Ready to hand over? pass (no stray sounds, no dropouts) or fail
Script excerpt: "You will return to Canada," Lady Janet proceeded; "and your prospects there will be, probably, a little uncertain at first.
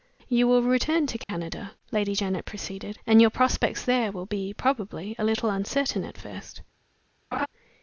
fail